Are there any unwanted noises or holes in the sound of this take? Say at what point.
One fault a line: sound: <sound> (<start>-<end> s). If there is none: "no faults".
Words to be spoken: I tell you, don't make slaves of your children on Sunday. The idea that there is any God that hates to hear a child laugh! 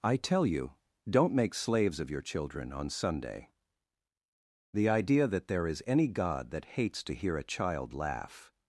no faults